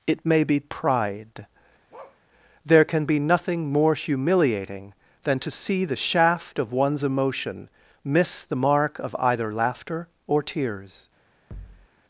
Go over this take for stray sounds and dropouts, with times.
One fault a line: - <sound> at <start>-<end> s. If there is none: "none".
- bark at 1.9-2.2 s
- thud at 11.5-11.9 s